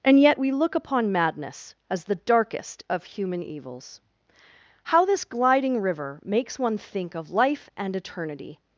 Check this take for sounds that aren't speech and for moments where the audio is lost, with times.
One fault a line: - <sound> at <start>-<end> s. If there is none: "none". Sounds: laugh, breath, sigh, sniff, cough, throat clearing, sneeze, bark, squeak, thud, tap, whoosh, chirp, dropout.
none